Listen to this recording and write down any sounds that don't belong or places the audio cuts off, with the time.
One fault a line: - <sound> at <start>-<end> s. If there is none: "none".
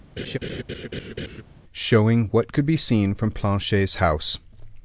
- laugh at 0.2-1.4 s